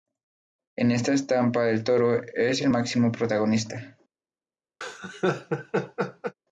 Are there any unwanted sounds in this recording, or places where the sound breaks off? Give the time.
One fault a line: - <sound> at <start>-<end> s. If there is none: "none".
- laugh at 4.8-6.3 s